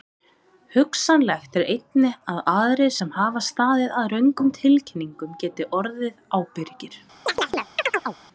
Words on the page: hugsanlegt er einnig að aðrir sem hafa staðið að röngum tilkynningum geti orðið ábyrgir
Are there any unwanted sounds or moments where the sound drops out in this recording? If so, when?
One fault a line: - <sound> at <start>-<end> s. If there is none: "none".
- chirp at 7.3-8.2 s